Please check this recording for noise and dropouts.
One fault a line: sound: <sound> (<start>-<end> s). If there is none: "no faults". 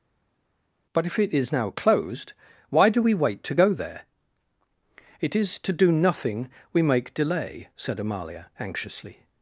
no faults